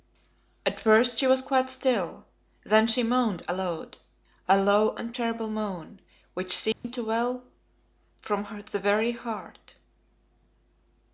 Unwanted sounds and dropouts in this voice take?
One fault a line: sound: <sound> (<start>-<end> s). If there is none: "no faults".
sound: dropout (6.7-6.8 s)